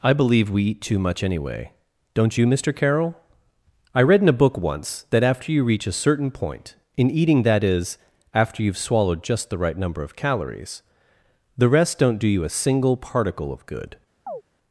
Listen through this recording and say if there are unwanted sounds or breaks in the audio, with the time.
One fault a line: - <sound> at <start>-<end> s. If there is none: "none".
- chirp at 14.3-14.4 s